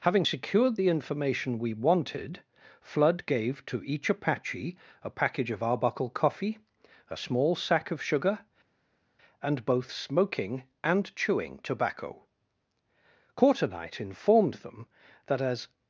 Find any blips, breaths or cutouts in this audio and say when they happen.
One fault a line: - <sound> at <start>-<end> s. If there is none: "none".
none